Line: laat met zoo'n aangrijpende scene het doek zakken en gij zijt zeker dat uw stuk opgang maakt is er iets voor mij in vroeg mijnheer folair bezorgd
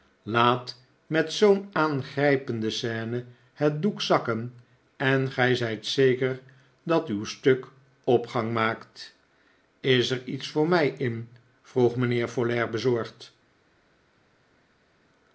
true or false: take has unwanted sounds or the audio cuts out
false